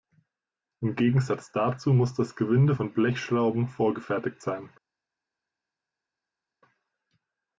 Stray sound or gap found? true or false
false